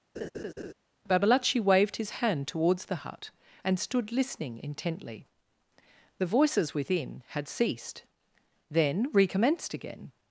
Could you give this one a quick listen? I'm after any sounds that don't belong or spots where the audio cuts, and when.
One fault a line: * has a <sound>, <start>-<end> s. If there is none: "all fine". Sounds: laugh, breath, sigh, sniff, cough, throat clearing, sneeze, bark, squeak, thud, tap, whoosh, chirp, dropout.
* has a laugh, 0.1-0.7 s